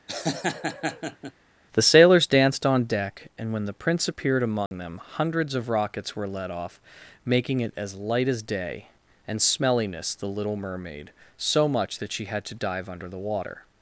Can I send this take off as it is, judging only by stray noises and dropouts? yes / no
no